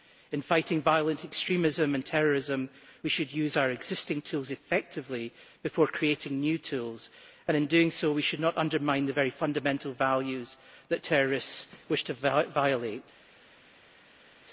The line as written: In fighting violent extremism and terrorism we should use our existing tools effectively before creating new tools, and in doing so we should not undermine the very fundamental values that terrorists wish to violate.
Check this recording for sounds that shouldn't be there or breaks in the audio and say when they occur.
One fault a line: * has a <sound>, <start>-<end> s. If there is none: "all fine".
all fine